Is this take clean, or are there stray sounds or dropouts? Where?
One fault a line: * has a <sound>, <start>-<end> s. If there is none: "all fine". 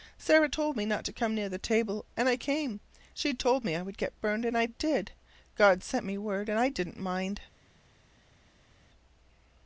all fine